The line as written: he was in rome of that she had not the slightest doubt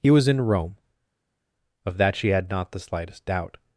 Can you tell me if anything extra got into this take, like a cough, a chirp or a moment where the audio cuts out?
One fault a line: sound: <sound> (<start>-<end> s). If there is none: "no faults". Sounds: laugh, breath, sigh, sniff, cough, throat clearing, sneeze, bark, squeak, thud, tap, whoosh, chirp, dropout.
no faults